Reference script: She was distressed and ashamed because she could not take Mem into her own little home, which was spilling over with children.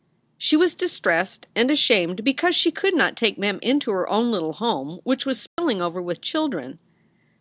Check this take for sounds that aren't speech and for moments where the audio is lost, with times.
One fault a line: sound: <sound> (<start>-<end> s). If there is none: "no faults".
sound: dropout (5.5-5.6 s)